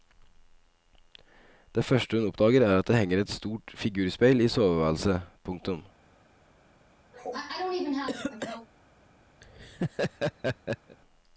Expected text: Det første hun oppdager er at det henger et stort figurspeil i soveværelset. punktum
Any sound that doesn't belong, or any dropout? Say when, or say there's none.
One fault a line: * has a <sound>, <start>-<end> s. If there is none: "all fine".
* has a cough, 7.1-8.7 s
* has a laugh, 9.4-11.0 s